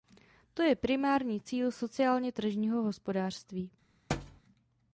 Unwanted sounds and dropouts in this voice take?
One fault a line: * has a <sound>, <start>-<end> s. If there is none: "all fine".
* has a thud, 4.1-4.4 s